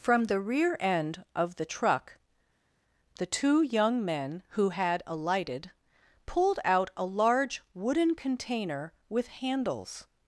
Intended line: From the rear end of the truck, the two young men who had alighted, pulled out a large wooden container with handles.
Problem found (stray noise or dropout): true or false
false